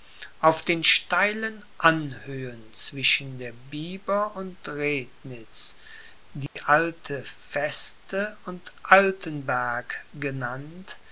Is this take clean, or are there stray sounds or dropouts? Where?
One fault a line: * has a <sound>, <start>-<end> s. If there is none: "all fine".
* has a dropout, 6.5-6.6 s